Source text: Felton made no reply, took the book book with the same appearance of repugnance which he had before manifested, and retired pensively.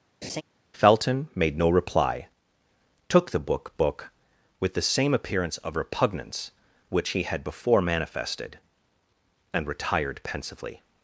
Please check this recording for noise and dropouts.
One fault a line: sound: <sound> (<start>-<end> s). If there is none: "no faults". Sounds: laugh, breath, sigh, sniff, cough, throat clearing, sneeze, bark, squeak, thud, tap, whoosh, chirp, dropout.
sound: laugh (0.2-0.4 s)